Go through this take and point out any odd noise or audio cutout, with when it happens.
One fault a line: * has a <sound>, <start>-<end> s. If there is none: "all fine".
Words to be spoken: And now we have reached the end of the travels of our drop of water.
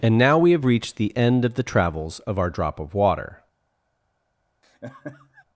* has a laugh, 4.6-5.4 s